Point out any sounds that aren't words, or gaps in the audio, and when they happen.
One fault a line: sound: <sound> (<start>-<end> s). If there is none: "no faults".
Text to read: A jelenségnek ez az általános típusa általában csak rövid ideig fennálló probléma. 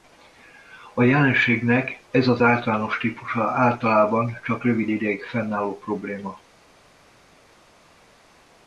no faults